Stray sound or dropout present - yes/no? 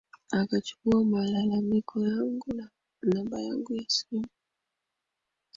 no